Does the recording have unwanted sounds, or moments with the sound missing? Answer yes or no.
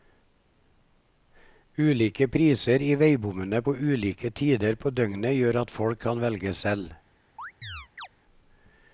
yes